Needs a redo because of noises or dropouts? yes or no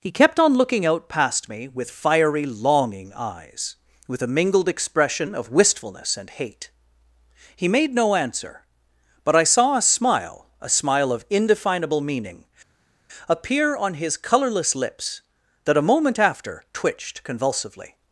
no